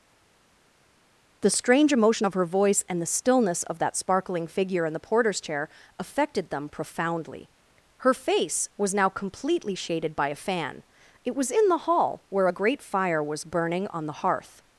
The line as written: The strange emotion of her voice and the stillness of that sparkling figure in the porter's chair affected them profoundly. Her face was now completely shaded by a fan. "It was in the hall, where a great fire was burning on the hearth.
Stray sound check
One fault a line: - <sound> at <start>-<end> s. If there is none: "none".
none